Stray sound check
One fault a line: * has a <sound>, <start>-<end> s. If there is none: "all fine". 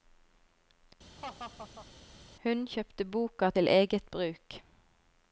* has a laugh, 1.2-1.9 s